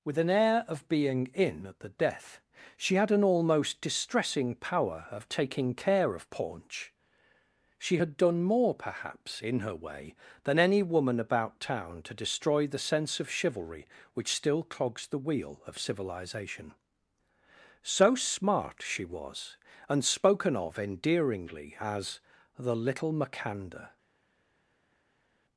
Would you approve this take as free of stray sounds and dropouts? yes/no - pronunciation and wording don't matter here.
yes